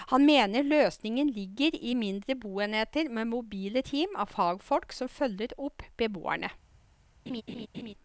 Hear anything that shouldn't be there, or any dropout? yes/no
yes